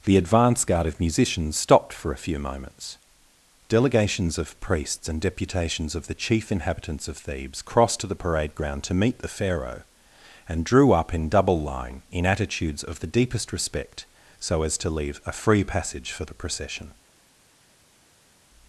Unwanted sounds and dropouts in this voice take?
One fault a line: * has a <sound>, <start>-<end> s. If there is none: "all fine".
all fine